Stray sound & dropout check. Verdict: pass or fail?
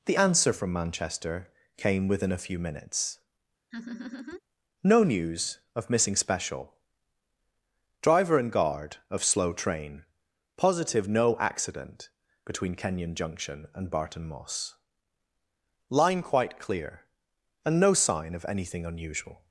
fail